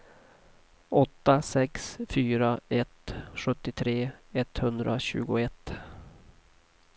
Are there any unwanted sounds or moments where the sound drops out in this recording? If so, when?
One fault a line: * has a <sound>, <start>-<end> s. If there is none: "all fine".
all fine